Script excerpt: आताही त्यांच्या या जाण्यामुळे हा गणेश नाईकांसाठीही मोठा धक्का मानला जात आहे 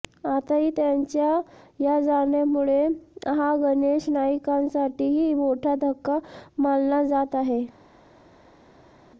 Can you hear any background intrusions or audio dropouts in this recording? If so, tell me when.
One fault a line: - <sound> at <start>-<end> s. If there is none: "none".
none